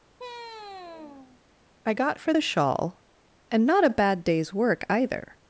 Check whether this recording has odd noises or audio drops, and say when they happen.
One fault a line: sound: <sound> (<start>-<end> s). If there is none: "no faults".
sound: sigh (0.2-1.4 s)